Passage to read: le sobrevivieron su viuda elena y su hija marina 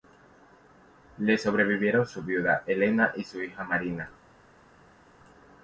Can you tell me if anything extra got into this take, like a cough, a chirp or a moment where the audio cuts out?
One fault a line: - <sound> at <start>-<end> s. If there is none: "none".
none